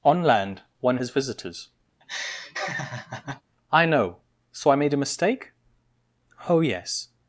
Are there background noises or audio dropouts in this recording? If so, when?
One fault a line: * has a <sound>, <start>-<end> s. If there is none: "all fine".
* has a laugh, 2.0-3.4 s